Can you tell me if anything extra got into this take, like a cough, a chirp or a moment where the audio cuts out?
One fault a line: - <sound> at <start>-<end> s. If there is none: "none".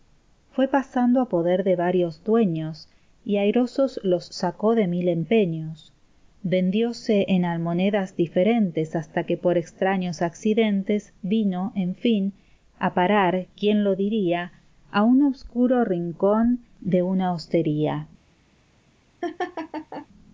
- laugh at 19.2-20.1 s